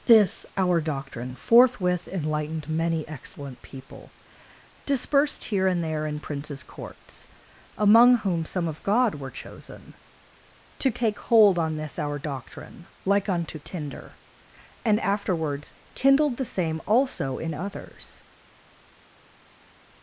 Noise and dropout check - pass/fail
pass